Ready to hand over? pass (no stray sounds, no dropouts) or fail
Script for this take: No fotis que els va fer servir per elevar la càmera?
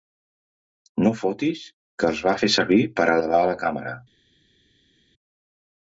pass